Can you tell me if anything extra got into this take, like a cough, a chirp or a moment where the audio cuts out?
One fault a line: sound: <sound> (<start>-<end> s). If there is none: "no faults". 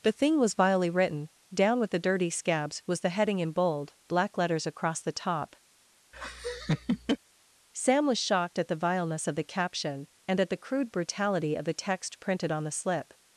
sound: laugh (6.1-7.2 s)